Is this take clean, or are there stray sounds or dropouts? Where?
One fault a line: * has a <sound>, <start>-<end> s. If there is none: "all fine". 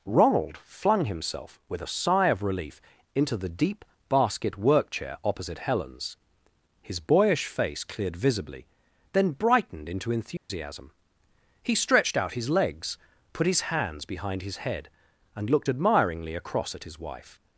* has a dropout, 10.4-10.5 s